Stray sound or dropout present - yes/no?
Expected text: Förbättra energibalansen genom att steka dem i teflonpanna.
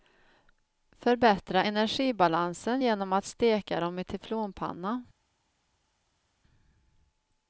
no